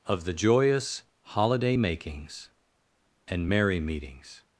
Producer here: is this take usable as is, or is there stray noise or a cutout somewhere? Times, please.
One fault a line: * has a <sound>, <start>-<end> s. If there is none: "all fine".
all fine